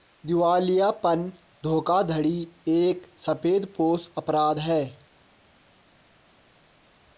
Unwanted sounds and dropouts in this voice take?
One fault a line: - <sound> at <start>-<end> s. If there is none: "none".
none